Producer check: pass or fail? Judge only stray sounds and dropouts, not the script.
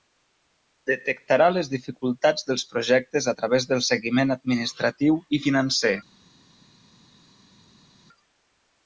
pass